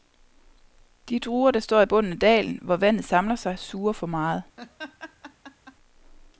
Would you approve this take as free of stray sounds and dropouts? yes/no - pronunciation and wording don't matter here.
no